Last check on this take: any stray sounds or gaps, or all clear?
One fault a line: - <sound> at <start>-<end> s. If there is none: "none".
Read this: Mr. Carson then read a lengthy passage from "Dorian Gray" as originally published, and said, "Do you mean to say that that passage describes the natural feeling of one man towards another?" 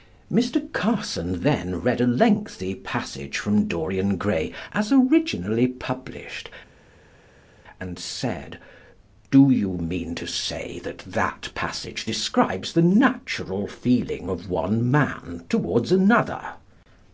none